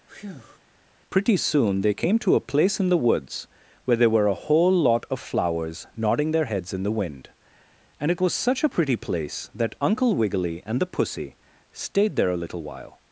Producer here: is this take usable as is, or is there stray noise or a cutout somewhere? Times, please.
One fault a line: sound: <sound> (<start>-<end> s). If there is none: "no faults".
sound: breath (0.1-0.6 s)